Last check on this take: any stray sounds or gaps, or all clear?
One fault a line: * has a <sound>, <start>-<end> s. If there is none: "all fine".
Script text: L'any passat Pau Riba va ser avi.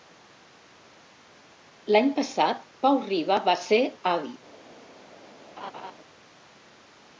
* has a laugh, 5.6-5.9 s